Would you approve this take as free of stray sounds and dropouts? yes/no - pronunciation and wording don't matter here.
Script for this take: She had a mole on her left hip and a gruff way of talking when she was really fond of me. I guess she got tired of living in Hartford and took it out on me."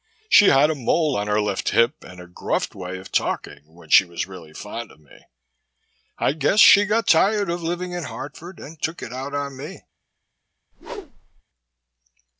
no